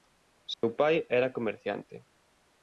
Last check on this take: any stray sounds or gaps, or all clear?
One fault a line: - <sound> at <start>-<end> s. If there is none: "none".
- dropout at 0.5-0.6 s